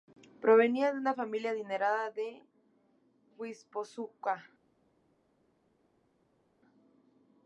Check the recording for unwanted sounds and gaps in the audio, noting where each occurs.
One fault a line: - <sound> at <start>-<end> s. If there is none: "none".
none